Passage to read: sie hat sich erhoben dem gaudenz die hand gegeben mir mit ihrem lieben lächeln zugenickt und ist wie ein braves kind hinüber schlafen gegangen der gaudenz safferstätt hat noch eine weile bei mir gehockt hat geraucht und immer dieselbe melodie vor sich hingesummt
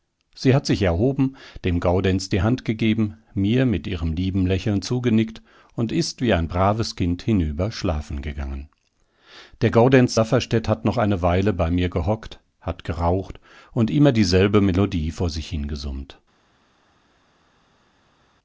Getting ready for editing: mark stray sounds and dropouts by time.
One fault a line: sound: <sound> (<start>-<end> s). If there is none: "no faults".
no faults